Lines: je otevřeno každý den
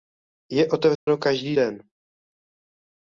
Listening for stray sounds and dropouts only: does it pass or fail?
fail